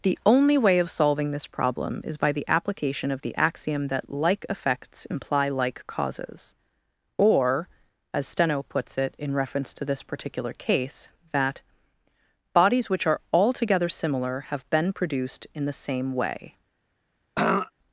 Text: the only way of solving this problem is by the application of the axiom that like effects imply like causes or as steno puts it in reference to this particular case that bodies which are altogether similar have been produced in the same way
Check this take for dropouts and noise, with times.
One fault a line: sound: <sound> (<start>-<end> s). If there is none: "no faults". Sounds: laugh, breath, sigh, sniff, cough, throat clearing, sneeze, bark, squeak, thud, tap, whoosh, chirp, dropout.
sound: throat clearing (17.4-17.7 s)